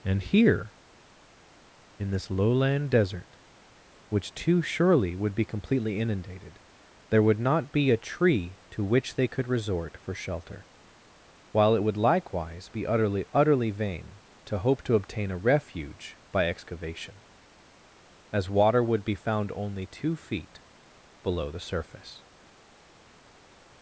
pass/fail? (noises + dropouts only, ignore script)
pass